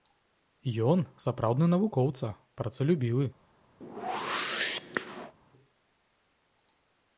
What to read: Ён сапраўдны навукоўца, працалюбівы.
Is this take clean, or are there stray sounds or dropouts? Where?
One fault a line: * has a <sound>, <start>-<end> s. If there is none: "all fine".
* has a whoosh, 3.8-5.3 s